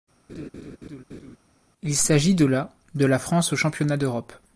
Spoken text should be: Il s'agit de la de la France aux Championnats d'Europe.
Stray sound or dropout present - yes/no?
yes